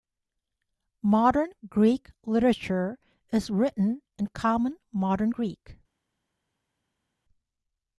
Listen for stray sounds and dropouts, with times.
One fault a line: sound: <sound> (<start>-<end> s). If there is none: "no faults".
no faults